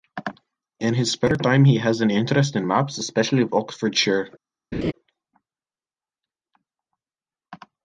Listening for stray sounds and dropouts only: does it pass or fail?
fail